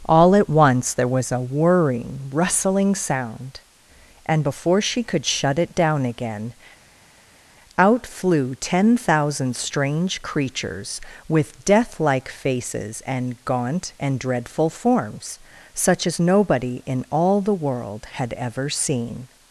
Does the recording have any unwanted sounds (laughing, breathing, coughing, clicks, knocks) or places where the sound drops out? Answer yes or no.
no